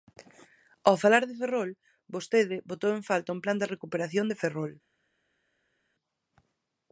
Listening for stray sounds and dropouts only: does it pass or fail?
pass